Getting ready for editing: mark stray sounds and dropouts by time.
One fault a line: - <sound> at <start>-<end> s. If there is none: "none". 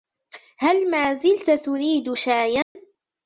- dropout at 2.6-2.8 s